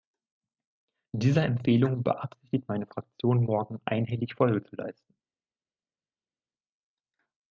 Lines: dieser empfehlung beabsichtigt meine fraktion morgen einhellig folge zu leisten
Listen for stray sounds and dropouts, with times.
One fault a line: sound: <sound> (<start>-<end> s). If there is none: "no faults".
no faults